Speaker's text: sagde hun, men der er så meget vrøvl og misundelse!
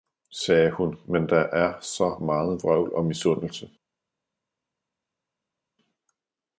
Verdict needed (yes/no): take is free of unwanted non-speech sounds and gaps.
yes